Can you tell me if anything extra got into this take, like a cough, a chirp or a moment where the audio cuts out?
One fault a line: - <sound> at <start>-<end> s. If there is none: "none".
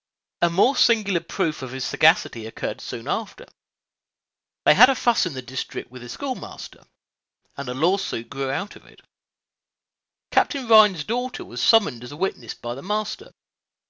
none